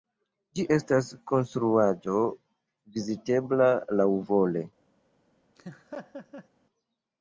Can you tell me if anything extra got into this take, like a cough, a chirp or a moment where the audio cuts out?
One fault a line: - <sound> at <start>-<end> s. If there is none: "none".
- laugh at 5.6-6.5 s